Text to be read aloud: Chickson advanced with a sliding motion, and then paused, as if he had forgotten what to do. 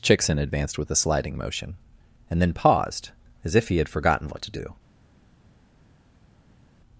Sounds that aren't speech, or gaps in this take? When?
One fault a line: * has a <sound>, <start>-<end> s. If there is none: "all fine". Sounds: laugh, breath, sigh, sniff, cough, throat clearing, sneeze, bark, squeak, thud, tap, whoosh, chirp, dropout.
all fine